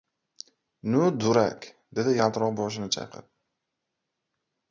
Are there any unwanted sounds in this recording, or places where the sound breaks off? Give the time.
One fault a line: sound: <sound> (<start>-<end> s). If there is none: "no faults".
no faults